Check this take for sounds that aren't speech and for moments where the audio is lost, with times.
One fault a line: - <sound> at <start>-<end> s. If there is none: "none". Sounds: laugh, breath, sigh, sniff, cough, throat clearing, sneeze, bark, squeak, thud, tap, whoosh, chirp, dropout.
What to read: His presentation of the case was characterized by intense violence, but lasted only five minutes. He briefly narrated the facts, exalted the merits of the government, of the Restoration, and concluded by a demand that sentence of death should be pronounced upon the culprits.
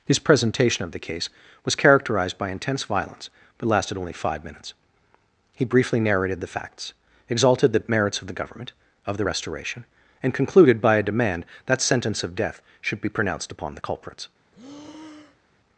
- breath at 14.5-15.5 s